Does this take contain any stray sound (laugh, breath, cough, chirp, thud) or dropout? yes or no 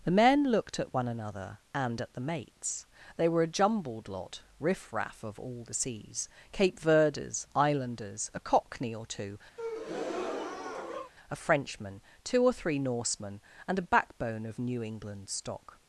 yes